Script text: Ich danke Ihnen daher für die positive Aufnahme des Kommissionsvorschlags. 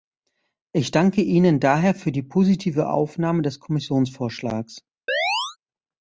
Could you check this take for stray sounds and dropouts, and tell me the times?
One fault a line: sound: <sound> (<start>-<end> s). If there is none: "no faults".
sound: chirp (5.1-5.6 s)